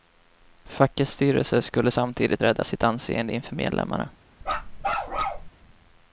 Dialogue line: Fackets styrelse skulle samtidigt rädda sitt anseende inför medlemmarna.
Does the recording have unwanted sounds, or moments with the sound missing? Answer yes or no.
yes